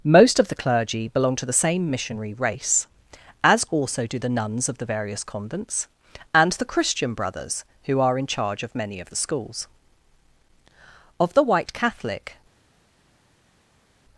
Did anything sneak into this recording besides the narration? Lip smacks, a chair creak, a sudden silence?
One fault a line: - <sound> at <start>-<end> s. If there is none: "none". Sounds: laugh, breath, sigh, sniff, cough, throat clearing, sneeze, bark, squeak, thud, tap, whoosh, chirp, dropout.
none